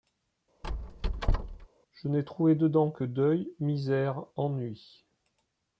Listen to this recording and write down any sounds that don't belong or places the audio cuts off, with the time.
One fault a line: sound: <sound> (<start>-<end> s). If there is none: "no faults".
sound: squeak (0.6-1.7 s)